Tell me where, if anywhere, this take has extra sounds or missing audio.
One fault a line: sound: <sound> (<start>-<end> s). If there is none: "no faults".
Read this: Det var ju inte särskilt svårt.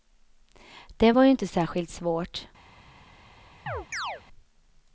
sound: chirp (3.7-4.2 s)